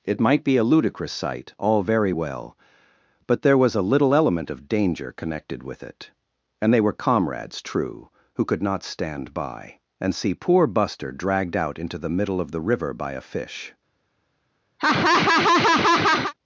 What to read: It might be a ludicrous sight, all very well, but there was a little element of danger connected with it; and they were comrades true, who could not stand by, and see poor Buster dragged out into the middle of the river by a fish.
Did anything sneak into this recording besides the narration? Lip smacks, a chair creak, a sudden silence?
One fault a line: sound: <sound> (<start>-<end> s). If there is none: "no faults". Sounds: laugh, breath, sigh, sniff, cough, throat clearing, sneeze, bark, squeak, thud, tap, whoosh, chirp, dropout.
sound: laugh (14.8-16.3 s)